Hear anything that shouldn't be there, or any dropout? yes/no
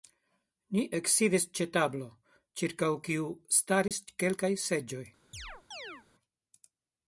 yes